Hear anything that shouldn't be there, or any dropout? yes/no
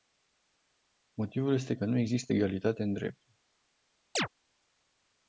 yes